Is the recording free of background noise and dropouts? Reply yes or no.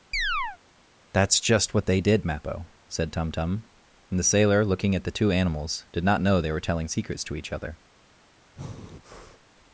no